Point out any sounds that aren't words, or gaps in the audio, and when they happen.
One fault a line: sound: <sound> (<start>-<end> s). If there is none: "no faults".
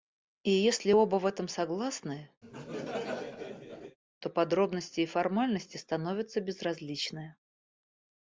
sound: laugh (2.4-4.0 s)